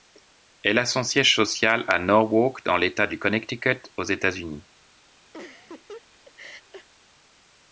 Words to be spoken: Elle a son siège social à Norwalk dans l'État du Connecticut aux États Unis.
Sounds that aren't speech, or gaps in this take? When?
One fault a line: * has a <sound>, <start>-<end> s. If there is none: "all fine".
* has a laugh, 5.3-6.9 s